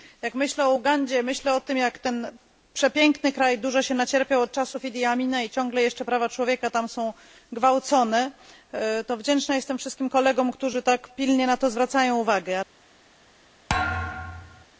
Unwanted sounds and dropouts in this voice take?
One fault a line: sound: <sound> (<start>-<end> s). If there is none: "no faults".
sound: thud (13.7-14.7 s)